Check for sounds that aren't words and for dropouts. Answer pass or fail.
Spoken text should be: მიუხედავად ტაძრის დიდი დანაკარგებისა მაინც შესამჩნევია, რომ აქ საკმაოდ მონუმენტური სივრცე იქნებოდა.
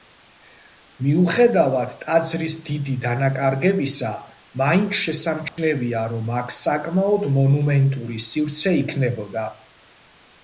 fail